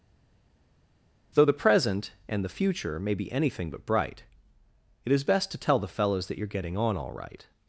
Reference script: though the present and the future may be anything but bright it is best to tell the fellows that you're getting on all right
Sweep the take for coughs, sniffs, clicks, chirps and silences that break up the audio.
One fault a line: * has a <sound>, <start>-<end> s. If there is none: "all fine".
all fine